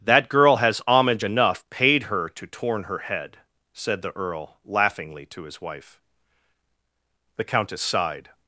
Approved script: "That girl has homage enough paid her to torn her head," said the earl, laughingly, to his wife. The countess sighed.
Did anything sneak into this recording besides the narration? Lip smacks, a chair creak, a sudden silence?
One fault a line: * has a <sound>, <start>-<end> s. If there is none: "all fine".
all fine